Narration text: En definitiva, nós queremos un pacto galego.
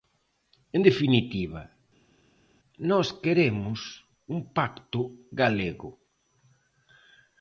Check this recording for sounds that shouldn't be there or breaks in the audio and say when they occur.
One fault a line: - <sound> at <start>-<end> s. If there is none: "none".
none